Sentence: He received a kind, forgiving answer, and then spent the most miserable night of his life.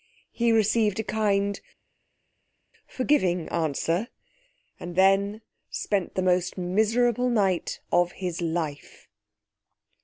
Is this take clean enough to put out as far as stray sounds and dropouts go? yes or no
yes